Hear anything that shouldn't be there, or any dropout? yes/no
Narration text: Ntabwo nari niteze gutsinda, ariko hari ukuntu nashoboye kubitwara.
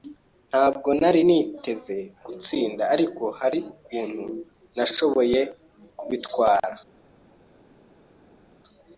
no